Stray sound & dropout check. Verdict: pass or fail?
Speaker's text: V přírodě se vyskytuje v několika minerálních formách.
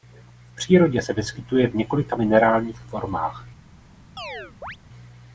fail